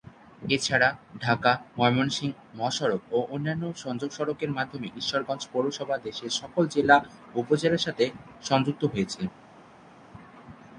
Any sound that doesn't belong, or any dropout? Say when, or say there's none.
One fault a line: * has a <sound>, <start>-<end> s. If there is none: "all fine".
all fine